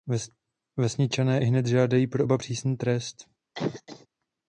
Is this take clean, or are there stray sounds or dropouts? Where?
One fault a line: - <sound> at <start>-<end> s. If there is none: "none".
- cough at 3.6-4.1 s